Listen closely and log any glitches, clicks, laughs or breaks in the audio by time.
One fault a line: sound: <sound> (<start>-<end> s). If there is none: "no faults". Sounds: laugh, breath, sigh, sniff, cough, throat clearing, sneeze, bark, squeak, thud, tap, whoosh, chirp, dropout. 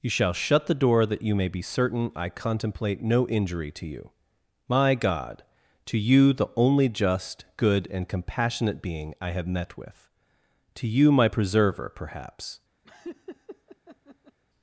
sound: laugh (12.8-14.4 s)